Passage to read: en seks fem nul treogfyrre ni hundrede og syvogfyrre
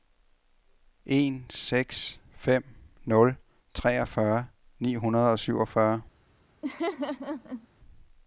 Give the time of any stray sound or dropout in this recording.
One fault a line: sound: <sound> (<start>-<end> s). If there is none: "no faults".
sound: laugh (6.6-7.7 s)